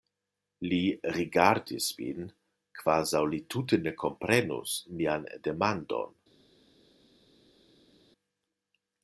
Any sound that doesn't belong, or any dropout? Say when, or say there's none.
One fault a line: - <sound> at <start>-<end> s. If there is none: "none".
none